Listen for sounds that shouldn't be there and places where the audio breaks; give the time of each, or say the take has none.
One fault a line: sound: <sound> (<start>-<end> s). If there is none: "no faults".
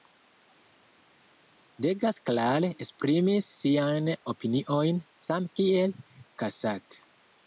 no faults